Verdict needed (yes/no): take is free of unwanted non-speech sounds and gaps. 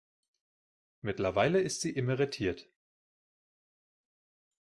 yes